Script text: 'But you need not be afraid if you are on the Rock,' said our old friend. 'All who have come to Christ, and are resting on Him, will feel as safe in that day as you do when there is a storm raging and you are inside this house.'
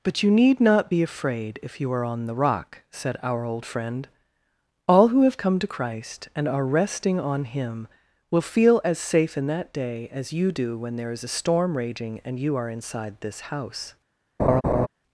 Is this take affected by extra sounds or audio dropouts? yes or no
yes